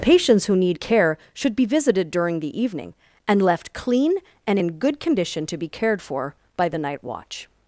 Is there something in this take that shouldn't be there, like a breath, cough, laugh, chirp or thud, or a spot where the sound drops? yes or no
no